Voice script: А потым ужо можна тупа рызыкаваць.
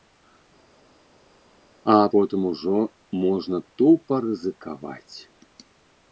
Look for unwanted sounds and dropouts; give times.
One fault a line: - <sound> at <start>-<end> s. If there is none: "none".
none